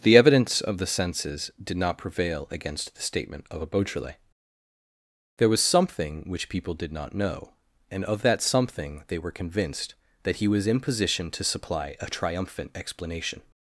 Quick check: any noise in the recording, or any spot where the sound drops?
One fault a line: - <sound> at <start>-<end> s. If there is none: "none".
none